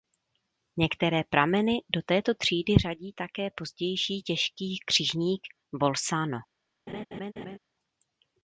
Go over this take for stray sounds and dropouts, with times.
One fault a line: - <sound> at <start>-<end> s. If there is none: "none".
- laugh at 6.9-7.6 s